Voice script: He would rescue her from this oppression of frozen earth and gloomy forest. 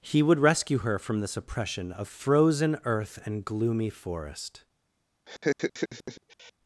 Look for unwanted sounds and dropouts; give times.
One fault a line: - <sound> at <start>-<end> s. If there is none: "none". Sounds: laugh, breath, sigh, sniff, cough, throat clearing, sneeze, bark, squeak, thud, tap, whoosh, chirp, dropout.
- laugh at 5.3-6.5 s